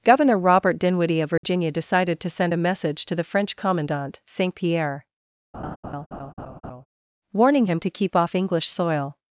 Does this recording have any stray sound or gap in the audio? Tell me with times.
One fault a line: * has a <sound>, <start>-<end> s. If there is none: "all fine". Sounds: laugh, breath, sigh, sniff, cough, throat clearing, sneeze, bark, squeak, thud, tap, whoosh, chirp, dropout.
* has a dropout, 1.4-1.4 s
* has a laugh, 5.5-6.9 s